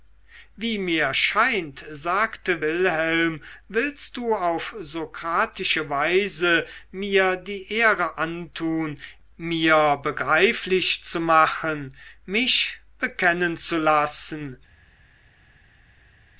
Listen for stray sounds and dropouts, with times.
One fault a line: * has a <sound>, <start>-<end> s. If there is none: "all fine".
all fine